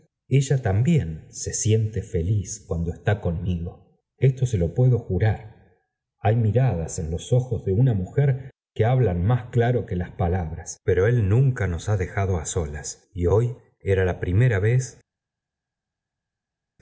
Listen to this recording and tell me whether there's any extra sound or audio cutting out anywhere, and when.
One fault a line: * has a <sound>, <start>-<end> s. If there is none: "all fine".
all fine